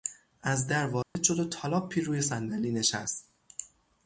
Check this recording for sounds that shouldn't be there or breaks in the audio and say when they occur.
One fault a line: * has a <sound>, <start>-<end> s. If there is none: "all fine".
* has a dropout, 1.0-1.2 s